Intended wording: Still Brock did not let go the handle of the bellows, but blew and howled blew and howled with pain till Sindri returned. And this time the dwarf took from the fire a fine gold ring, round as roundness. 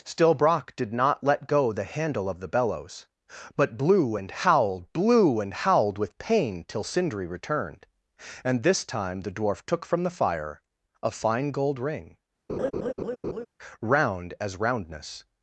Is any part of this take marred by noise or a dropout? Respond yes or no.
yes